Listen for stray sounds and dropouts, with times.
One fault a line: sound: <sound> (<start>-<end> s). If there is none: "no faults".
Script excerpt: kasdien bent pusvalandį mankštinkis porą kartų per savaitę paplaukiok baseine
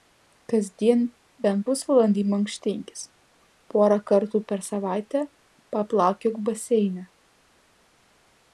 no faults